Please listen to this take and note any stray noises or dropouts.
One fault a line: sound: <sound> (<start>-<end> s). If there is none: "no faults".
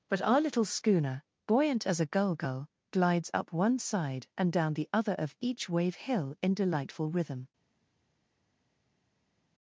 no faults